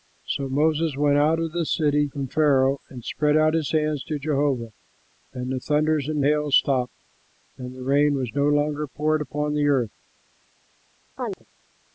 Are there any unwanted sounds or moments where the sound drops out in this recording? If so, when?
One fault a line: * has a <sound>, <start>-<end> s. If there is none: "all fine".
* has a chirp, 11.2-11.5 s